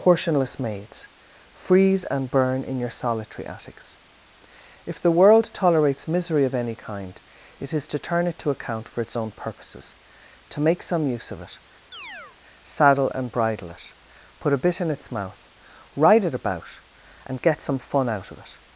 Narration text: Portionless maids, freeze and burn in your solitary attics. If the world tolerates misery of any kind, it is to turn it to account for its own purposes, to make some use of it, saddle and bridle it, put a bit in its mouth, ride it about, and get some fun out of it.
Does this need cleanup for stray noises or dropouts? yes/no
yes